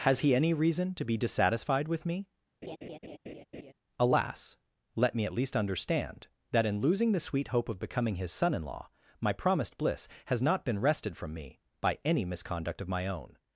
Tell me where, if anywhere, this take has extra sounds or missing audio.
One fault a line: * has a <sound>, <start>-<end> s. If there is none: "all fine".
* has a laugh, 2.6-3.7 s